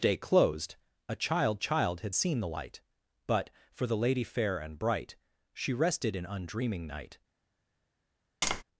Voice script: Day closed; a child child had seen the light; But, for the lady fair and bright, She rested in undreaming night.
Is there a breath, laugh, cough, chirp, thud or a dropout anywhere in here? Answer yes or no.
yes